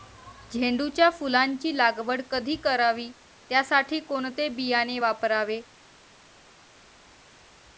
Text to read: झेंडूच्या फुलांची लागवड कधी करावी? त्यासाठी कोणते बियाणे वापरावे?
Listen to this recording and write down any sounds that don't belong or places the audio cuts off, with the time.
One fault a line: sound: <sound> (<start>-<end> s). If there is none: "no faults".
no faults